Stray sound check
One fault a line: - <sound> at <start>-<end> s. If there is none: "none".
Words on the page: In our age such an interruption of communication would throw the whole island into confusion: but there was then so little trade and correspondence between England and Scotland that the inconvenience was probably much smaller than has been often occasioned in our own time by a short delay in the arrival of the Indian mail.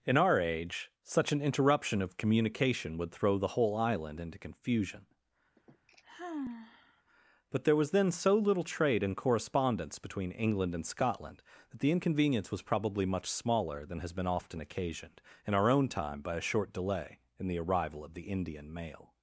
- sigh at 5.6-7.0 s